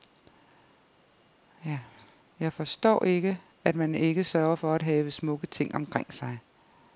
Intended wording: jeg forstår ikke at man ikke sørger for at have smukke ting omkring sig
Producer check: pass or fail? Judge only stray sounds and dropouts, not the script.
pass